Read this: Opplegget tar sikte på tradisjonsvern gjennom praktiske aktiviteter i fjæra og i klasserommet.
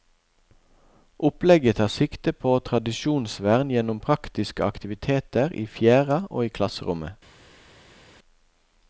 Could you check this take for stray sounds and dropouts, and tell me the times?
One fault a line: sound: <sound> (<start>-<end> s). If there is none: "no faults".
no faults